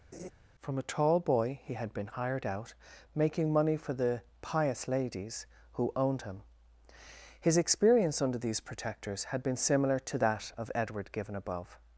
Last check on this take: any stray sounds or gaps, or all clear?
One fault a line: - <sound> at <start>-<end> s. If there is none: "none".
- laugh at 0.1-0.3 s